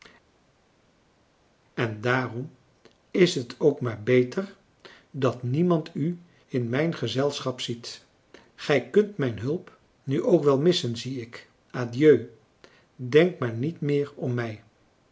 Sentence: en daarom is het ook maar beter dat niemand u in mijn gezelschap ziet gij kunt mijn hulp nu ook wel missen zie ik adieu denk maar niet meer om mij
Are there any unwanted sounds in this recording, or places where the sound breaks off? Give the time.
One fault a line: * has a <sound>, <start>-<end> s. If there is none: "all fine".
all fine